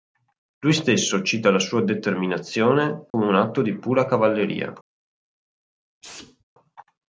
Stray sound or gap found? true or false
true